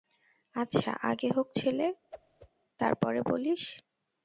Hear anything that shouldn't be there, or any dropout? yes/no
yes